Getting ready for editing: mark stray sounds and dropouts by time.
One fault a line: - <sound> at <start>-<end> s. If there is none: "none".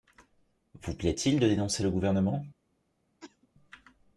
- cough at 3.2-3.5 s